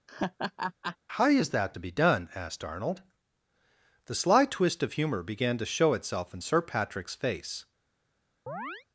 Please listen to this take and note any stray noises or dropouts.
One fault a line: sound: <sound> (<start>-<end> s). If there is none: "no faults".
sound: laugh (0.1-1.0 s)
sound: chirp (8.5-8.9 s)